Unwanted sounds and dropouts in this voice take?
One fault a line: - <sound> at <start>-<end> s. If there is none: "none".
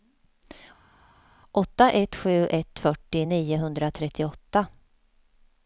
none